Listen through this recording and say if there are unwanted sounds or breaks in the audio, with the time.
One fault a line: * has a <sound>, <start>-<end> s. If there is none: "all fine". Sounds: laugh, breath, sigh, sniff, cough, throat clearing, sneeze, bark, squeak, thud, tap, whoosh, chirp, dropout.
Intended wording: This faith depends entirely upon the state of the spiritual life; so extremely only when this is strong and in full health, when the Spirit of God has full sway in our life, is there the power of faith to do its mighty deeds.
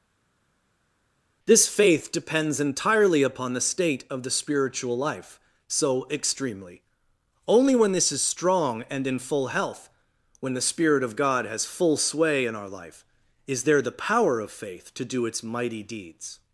all fine